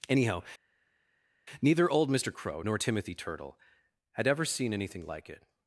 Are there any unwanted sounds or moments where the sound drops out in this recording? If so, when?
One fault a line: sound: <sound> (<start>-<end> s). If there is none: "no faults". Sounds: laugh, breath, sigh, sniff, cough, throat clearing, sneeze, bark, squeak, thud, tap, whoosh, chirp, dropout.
no faults